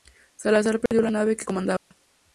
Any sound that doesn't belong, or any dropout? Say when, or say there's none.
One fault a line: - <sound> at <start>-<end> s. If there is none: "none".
- dropout at 0.9-0.9 s
- dropout at 1.8-1.9 s